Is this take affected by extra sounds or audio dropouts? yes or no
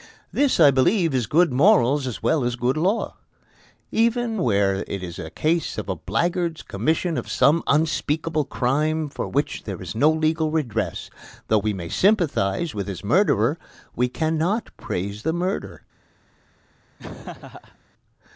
yes